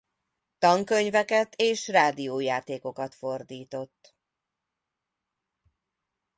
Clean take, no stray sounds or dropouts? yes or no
yes